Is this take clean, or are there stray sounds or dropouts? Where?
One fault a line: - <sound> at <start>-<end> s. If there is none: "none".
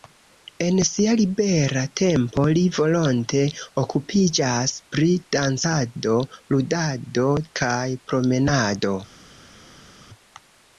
none